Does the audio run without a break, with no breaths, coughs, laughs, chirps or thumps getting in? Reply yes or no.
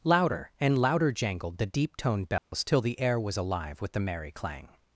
no